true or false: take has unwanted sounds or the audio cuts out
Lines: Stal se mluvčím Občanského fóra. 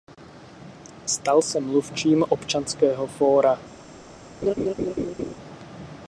true